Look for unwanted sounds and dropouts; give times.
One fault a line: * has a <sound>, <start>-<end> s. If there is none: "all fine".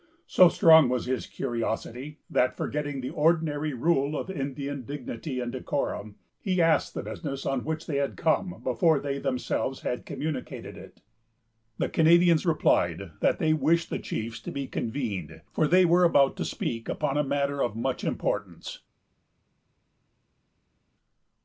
all fine